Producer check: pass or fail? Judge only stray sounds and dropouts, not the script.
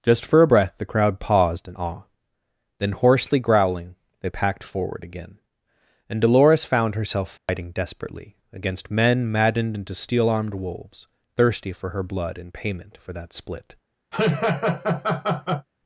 fail